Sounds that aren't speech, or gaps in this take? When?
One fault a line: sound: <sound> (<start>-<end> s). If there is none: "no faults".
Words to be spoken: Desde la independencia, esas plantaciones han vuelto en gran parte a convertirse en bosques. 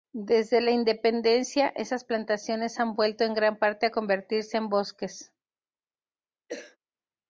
sound: cough (6.5-6.8 s)